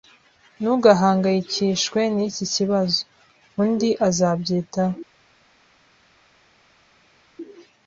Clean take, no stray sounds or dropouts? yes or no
yes